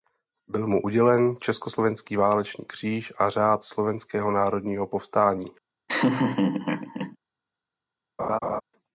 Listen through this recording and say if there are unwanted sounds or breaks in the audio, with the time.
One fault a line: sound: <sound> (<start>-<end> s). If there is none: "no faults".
sound: laugh (5.9-7.2 s)
sound: laugh (8.2-8.6 s)